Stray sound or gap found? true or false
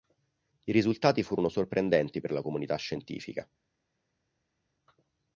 false